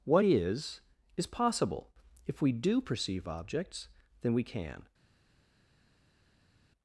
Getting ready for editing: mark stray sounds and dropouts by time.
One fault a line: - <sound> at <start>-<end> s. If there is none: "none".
none